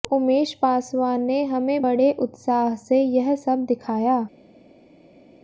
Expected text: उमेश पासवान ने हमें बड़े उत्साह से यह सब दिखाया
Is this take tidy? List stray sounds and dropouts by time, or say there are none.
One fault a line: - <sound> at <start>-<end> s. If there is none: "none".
none